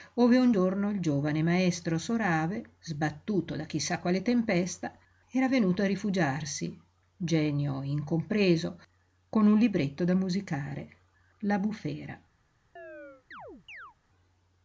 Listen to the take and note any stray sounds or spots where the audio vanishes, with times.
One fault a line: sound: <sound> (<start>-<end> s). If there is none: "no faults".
sound: chirp (12.8-14.0 s)